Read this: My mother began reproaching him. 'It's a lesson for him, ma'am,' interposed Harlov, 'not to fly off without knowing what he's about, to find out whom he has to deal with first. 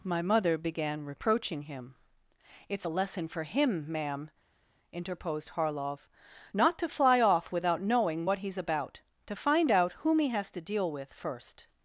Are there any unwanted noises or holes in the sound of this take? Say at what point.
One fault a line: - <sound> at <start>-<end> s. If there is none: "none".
none